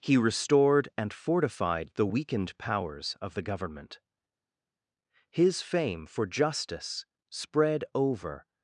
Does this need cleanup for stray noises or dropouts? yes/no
no